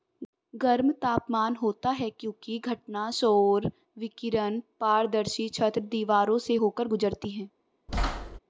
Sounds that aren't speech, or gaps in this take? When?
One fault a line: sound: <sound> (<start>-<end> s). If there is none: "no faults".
sound: thud (7.9-8.4 s)